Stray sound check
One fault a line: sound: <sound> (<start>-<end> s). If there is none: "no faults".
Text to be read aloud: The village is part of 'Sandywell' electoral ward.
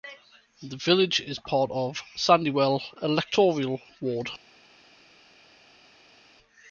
no faults